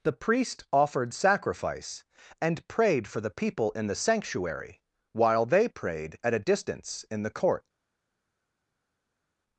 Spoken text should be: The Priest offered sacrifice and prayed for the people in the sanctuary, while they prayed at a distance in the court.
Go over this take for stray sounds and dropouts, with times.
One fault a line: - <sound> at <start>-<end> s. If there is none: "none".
none